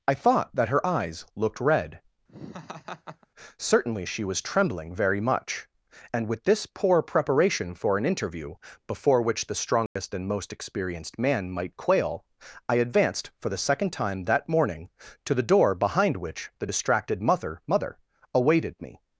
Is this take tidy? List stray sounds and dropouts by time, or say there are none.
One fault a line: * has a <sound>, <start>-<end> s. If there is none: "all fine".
* has a laugh, 2.3-3.3 s
* has a dropout, 9.9-10.0 s